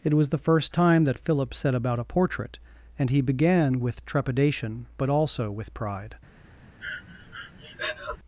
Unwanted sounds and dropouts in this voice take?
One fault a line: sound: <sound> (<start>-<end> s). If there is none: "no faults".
sound: breath (6.8-8.2 s)